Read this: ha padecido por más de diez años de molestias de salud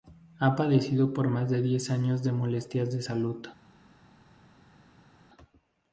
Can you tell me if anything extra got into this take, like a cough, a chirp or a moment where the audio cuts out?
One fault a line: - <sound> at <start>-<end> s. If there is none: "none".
none